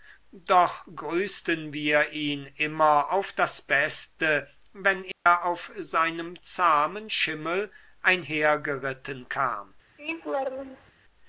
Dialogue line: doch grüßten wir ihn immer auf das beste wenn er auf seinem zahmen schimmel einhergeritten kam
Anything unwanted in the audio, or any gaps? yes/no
yes